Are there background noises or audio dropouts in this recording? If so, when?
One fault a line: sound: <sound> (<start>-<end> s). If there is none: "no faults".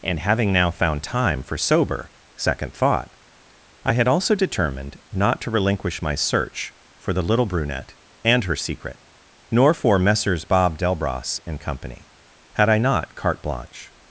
no faults